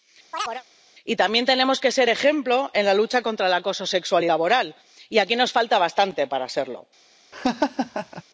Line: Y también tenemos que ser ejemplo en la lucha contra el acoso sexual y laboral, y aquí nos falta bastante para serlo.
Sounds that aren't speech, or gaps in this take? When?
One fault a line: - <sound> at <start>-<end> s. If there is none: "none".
- chirp at 0.3-0.6 s
- laugh at 7.3-8.2 s